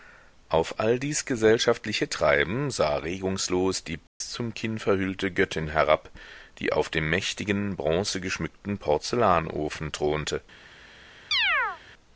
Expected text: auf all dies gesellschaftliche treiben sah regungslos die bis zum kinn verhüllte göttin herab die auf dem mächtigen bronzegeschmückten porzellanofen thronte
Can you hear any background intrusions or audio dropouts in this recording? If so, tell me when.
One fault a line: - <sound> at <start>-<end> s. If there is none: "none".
- dropout at 4.1-4.2 s
- chirp at 11.3-11.8 s